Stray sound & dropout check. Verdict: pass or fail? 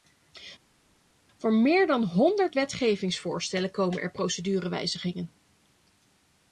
pass